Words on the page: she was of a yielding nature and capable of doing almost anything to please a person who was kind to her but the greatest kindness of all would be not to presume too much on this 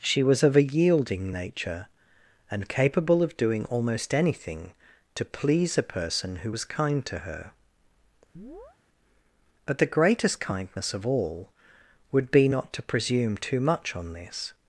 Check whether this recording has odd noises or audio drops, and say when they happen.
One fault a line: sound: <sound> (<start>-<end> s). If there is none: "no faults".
sound: chirp (8.3-8.8 s)